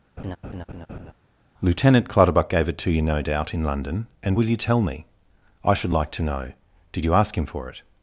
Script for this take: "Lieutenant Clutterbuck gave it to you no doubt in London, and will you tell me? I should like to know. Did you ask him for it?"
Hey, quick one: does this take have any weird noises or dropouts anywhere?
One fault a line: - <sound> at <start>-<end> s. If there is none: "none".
- laugh at 0.2-1.1 s